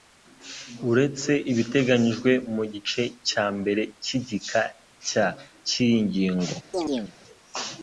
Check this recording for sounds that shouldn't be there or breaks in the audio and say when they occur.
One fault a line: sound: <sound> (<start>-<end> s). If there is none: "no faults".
sound: chirp (6.7-7.1 s)